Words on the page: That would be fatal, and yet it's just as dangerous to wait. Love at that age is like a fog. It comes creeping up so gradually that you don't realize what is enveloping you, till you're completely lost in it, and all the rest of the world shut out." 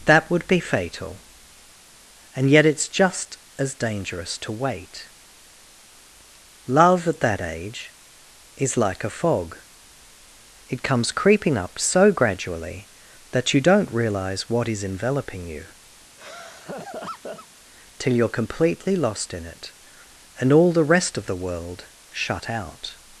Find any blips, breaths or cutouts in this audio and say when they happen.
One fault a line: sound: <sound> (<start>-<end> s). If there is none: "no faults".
sound: laugh (16.2-17.5 s)